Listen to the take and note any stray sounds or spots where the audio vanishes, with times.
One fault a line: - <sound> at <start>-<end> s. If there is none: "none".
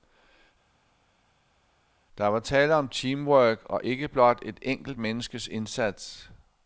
none